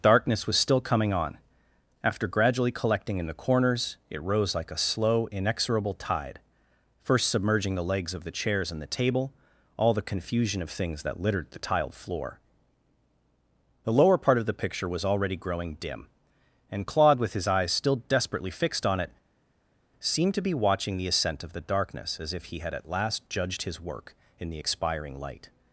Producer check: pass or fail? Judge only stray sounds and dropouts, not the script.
pass